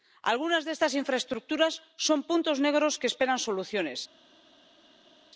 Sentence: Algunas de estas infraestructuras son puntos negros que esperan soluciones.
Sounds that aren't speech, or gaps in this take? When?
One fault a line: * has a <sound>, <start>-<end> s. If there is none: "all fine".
all fine